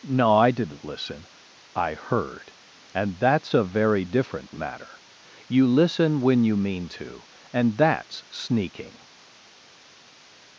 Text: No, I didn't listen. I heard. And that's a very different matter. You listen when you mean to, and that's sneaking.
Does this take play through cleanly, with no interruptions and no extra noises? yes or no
yes